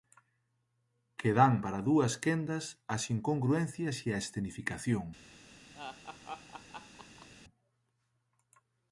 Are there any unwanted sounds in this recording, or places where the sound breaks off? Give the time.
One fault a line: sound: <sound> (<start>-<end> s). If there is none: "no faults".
sound: laugh (5.7-7.3 s)